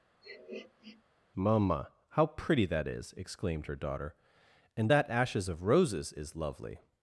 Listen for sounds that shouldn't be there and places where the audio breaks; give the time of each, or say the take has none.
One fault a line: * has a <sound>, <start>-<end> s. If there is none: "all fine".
* has a sniff, 0.2-1.0 s